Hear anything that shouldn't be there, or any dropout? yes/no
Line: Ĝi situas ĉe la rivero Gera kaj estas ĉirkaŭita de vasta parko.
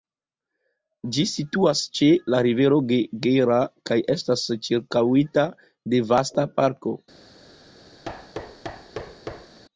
yes